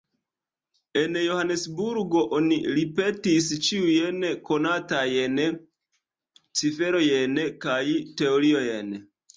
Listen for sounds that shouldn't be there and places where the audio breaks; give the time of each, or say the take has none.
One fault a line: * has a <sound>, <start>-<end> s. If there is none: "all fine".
all fine